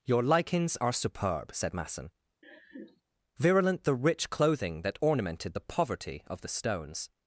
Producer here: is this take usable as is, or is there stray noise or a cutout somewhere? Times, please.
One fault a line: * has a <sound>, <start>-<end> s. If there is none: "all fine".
* has a laugh, 2.4-3.0 s